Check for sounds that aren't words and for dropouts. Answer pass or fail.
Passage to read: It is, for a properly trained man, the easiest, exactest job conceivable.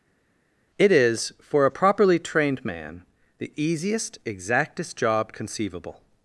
pass